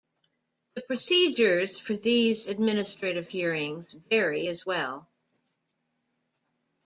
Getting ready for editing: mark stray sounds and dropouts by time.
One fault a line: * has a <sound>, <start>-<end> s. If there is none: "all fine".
all fine